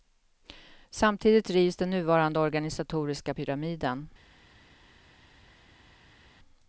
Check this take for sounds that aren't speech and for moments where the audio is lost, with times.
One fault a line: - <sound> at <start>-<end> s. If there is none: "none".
none